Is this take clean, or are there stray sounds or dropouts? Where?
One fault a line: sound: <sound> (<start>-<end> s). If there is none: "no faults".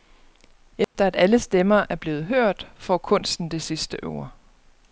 sound: dropout (0.8-1.0 s)